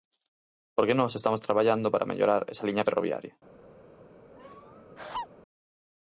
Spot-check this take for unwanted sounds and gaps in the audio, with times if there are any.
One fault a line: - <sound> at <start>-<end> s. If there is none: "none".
- laugh at 4.4-5.3 s